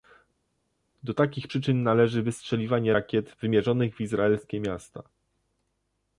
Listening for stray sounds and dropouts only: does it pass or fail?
pass